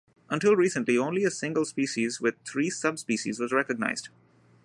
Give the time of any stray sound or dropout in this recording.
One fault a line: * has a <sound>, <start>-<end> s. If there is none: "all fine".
all fine